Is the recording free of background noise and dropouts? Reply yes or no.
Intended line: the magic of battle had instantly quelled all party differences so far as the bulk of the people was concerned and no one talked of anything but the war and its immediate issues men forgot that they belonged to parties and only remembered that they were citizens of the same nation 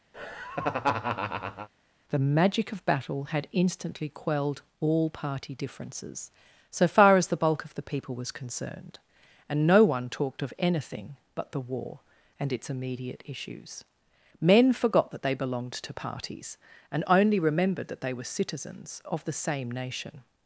no